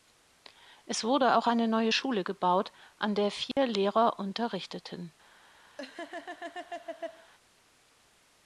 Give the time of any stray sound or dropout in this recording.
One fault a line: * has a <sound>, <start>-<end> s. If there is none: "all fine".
* has a dropout, 3.5-3.6 s
* has a laugh, 5.8-7.3 s